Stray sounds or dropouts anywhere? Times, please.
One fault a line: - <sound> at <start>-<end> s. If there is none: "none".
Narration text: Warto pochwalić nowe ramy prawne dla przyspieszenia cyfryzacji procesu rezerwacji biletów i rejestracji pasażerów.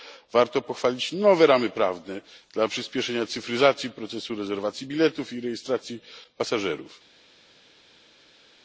none